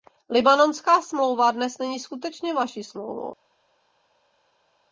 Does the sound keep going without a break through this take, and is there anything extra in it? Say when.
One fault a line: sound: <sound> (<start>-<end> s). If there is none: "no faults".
no faults